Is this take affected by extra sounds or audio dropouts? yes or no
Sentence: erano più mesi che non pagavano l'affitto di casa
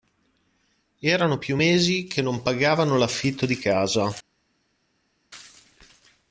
no